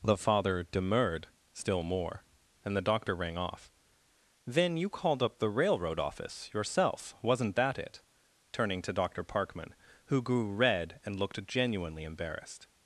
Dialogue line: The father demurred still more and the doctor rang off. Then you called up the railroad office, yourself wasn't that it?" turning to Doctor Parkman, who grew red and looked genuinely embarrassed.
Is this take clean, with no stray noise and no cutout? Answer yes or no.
yes